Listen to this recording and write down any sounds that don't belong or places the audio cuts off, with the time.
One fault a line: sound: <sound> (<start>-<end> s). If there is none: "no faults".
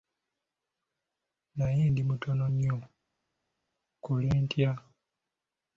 no faults